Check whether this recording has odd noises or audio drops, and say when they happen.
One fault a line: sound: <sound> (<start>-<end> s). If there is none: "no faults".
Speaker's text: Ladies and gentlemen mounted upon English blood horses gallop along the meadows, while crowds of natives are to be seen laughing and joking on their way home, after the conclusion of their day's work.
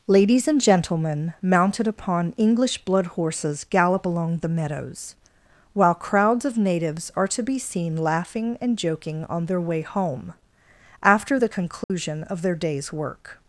sound: dropout (11.8-11.9 s)